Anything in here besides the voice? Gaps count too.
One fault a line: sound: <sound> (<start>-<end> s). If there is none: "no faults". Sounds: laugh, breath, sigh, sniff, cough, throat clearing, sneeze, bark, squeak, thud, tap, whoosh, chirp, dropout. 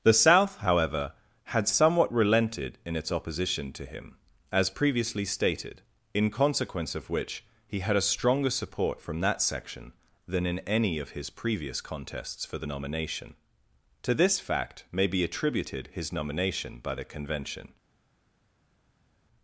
no faults